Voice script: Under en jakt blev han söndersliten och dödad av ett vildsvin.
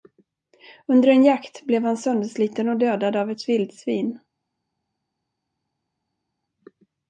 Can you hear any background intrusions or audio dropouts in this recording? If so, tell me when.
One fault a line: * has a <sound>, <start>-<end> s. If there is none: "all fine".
all fine